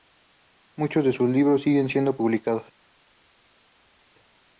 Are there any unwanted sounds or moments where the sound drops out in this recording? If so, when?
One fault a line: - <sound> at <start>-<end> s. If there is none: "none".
none